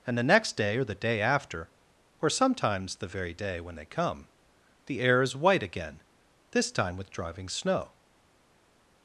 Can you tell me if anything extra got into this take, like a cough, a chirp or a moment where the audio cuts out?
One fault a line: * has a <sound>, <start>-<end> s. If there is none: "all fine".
all fine